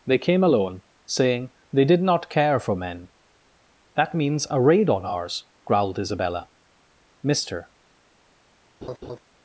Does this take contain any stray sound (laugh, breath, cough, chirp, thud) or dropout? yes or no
yes